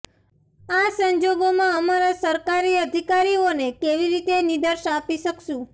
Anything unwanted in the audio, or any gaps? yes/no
no